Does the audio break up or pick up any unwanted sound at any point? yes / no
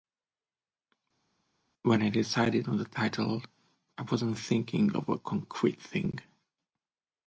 no